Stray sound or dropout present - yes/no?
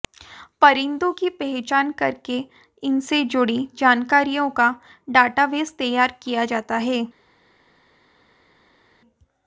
no